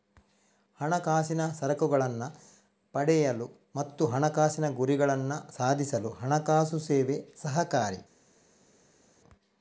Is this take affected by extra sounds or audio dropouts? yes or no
no